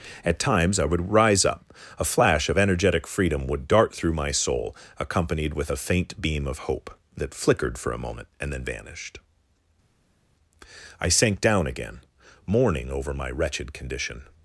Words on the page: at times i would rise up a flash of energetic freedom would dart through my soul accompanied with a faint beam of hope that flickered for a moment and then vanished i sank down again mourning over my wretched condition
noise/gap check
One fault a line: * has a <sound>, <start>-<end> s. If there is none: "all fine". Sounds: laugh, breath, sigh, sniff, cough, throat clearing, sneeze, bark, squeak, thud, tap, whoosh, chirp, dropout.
all fine